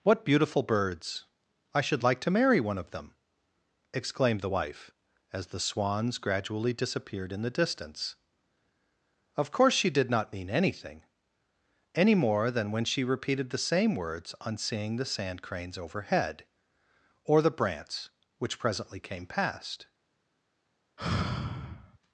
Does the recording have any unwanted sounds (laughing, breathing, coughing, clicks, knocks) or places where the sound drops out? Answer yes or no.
yes